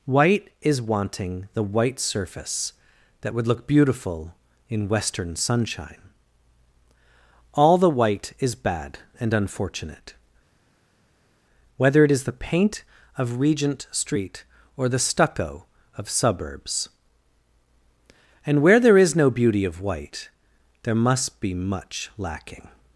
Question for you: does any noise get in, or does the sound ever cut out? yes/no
no